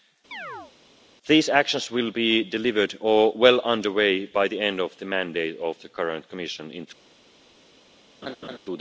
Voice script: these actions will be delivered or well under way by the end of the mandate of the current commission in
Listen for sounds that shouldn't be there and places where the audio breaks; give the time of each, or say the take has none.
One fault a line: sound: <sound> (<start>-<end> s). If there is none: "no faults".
sound: chirp (0.3-0.7 s)
sound: laugh (8.2-8.6 s)